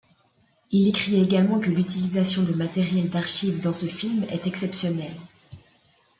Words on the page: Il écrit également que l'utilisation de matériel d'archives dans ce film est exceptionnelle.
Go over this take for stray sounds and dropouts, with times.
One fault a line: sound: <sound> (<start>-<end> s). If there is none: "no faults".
no faults